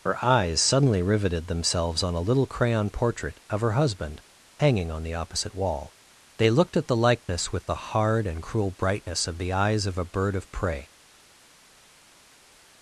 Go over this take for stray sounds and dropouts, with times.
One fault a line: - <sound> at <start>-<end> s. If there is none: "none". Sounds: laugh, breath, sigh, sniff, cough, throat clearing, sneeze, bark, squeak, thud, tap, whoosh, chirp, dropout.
none